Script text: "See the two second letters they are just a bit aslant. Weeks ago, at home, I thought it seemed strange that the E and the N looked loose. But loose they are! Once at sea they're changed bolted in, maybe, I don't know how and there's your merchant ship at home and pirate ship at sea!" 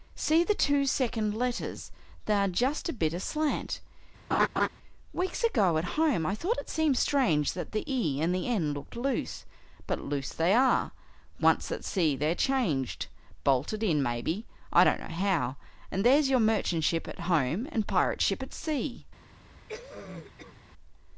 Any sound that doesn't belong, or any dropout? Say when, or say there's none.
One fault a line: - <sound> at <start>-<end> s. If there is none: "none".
- laugh at 4.3-4.7 s
- cough at 19.7-20.6 s